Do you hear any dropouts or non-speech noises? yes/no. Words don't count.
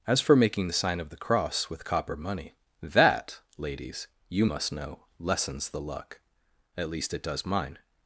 no